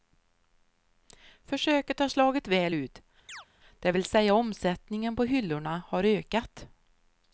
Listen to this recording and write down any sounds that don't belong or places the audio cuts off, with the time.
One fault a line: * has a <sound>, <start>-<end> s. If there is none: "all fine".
* has a chirp, 3.3-3.5 s